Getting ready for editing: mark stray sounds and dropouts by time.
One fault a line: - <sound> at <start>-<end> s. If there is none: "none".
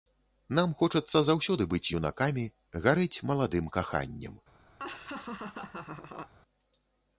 - laugh at 4.8-6.3 s